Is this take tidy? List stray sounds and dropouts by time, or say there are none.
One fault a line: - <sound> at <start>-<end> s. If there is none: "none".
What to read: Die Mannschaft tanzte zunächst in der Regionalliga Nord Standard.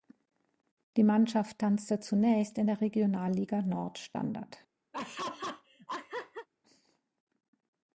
- laugh at 4.9-6.5 s